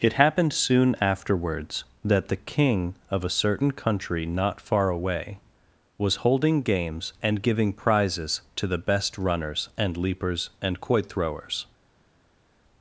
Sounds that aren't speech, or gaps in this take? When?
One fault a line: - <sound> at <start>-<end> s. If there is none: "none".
none